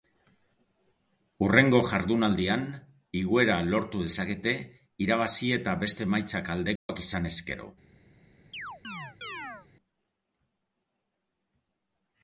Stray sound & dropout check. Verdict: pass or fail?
fail